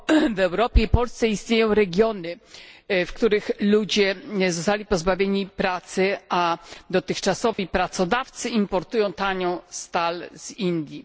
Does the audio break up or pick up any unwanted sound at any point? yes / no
yes